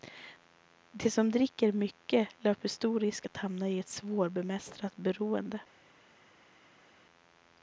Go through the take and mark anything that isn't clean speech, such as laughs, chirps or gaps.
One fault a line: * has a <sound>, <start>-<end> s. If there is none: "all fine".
all fine